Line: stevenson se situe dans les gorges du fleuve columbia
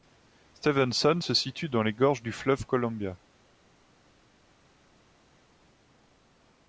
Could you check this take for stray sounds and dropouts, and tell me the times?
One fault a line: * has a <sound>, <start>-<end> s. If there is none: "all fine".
all fine